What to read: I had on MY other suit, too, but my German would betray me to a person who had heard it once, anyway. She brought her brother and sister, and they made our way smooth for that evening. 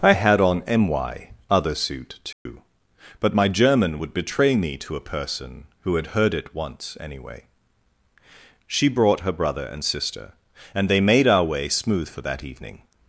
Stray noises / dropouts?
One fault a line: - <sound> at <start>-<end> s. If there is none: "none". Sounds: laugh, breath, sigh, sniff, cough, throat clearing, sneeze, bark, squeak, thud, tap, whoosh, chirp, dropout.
- dropout at 2.3-2.5 s